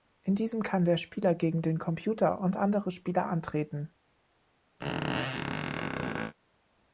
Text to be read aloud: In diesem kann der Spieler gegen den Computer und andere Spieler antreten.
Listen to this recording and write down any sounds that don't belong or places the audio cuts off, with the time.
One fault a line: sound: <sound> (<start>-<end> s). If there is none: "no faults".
sound: squeak (4.8-6.3 s)